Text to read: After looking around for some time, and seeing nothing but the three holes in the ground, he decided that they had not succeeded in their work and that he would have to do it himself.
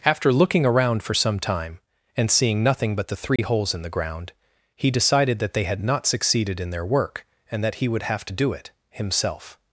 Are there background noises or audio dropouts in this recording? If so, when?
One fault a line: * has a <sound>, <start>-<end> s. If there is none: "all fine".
* has a dropout, 3.4-3.4 s